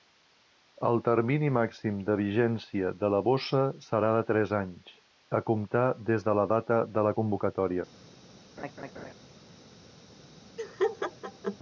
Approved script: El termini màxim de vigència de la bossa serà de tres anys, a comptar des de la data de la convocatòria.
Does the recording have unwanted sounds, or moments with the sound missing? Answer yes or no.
yes